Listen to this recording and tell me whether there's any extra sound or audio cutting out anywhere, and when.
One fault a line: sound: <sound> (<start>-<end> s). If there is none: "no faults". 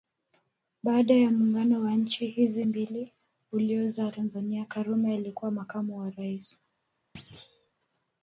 sound: thud (7.1-7.7 s)